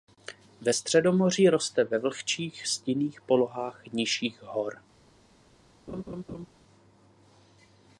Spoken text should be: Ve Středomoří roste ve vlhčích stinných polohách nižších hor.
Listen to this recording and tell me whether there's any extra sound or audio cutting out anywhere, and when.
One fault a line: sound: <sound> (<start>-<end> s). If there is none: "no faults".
sound: laugh (5.9-6.5 s)